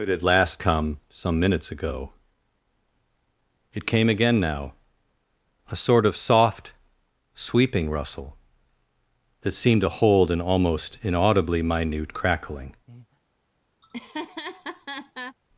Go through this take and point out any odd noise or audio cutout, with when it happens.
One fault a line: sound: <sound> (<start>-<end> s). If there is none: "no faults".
sound: breath (12.9-13.2 s)
sound: laugh (13.8-15.4 s)